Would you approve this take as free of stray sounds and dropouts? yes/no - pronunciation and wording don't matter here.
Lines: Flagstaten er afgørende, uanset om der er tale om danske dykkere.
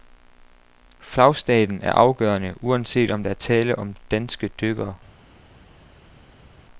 yes